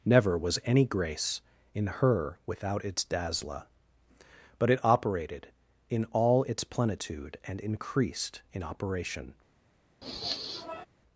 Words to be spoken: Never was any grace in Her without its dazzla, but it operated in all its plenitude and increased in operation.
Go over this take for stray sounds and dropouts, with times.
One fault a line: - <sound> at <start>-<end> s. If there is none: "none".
- sniff at 10.0-10.9 s